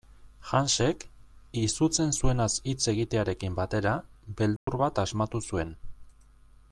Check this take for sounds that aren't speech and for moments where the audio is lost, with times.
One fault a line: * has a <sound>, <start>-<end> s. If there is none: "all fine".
* has a dropout, 4.6-4.7 s